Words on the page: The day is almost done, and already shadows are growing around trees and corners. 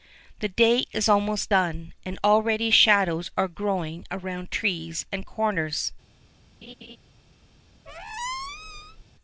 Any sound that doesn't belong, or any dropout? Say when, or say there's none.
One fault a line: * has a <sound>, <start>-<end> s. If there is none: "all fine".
* has a laugh, 6.6-7.0 s
* has a squeak, 7.9-9.0 s